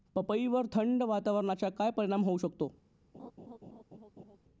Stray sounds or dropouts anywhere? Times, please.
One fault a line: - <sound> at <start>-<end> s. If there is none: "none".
- laugh at 3.1-4.4 s